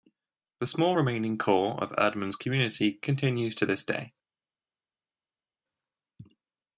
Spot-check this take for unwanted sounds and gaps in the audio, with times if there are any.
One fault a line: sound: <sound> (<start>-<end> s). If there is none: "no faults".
no faults